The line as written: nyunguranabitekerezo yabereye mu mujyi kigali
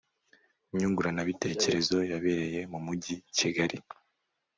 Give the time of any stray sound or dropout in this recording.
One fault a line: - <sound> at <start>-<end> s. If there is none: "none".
none